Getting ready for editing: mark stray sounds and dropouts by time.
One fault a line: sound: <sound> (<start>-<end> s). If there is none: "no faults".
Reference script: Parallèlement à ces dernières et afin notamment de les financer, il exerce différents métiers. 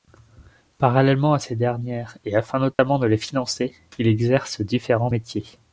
sound: dropout (2.7-2.8 s)